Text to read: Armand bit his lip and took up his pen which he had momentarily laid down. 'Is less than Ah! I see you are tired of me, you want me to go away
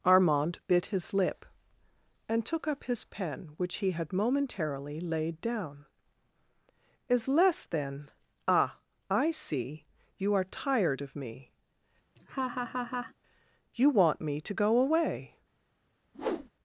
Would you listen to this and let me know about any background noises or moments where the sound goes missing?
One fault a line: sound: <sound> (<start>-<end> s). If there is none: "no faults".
sound: laugh (12.2-13.1 s)
sound: whoosh (16.1-16.5 s)